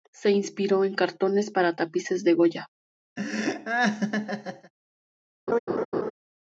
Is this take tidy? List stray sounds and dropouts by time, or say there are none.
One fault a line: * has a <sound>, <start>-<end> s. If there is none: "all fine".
* has a laugh, 3.2-4.7 s
* has a laugh, 5.5-6.1 s